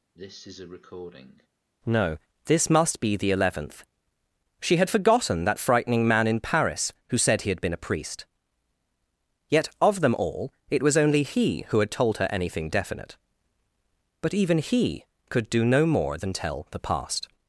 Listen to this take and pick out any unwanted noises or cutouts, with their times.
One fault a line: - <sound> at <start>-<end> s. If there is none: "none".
- cough at 0.1-1.5 s